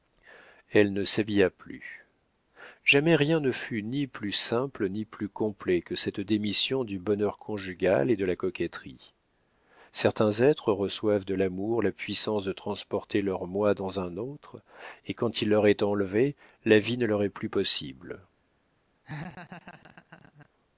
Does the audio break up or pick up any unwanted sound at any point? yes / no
yes